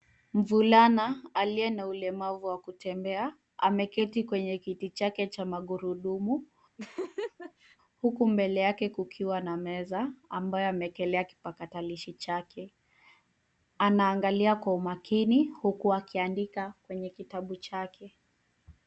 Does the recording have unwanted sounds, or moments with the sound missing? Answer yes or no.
yes